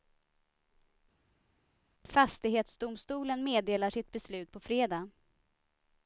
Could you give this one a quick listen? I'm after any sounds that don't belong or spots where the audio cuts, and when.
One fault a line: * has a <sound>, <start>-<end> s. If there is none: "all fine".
all fine